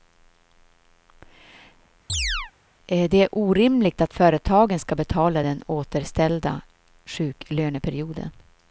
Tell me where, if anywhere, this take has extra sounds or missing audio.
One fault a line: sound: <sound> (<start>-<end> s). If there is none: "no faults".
sound: chirp (2.1-2.5 s)